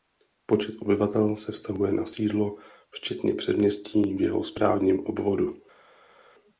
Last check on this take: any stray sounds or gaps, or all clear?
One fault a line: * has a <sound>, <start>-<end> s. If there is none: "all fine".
all fine